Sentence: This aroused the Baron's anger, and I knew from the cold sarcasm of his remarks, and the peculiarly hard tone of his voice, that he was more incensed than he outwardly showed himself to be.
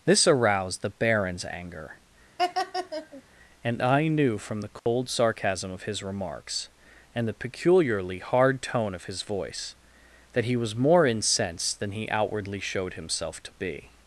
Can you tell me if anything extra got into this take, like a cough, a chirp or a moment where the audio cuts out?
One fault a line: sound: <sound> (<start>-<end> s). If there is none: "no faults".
sound: laugh (2.4-3.2 s)
sound: dropout (4.8-4.9 s)